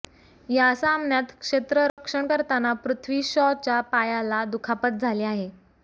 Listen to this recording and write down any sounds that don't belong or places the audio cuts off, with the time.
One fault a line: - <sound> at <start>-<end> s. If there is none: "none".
- dropout at 1.9-2.0 s